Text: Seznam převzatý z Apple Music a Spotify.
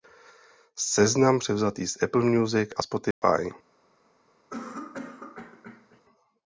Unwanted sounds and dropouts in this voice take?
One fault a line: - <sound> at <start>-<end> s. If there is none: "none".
- dropout at 3.1-3.2 s
- cough at 4.5-6.0 s